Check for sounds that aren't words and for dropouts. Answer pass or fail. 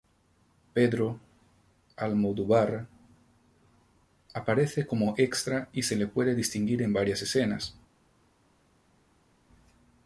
pass